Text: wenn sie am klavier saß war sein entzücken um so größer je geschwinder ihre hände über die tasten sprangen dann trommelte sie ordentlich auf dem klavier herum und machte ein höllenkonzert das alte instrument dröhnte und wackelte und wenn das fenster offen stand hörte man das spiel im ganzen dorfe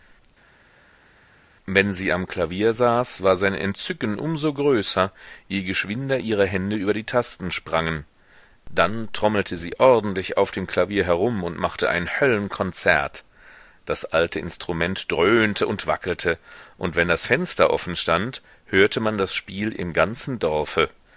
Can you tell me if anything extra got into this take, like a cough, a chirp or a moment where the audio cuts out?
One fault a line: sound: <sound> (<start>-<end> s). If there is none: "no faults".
no faults